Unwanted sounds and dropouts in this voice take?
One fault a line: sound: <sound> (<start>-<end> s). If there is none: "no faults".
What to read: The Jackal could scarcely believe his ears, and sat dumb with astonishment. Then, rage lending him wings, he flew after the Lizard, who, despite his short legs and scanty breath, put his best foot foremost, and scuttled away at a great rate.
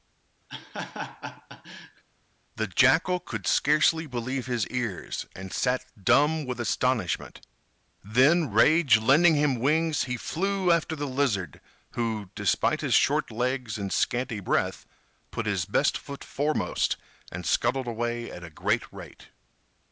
sound: laugh (0.5-2.0 s)